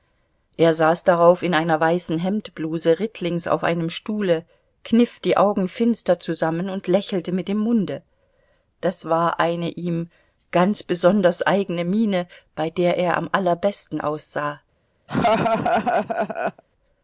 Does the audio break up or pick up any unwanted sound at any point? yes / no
yes